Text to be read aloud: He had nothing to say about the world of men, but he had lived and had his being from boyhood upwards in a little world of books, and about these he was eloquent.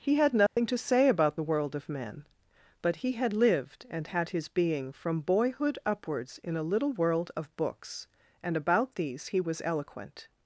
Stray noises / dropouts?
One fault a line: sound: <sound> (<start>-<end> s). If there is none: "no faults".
sound: dropout (0.5-0.6 s)